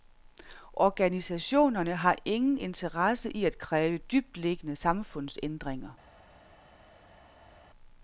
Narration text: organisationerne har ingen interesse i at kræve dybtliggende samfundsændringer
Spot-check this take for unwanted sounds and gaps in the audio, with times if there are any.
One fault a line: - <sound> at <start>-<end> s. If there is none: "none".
none